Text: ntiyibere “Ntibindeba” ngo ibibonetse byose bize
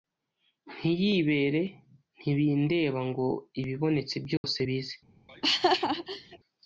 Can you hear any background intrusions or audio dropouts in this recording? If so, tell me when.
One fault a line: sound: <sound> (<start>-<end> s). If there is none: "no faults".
sound: dropout (4.4-4.4 s)
sound: laugh (5.3-6.4 s)